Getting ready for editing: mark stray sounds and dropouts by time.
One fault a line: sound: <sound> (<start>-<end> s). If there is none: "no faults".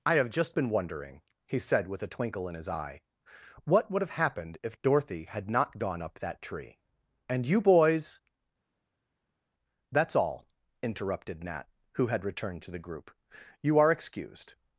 no faults